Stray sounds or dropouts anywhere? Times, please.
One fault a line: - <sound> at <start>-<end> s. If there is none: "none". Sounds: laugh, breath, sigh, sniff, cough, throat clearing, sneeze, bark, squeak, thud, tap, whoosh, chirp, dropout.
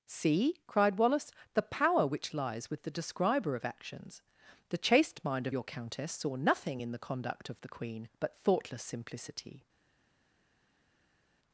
none